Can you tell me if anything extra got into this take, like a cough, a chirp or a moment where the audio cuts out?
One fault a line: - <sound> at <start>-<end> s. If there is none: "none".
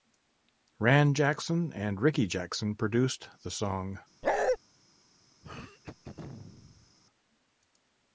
- bark at 4.2-4.6 s
- throat clearing at 5.4-7.0 s